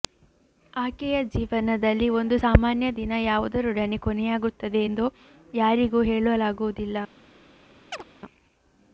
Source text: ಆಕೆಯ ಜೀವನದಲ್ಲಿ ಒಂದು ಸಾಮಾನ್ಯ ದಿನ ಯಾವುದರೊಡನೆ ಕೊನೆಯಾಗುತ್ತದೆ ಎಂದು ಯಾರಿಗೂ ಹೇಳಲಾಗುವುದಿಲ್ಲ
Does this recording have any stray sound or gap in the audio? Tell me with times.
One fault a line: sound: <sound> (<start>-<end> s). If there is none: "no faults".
sound: chirp (7.9-8.0 s)